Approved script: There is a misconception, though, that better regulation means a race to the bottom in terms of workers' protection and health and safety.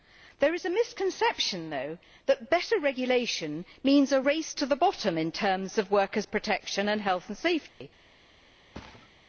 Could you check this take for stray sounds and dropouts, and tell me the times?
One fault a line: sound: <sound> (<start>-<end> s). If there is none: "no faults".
sound: dropout (7.7-7.8 s)
sound: thud (8.7-9.1 s)